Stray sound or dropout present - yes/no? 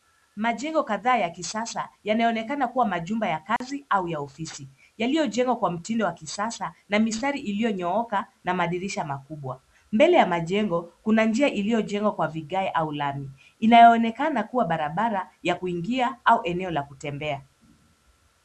yes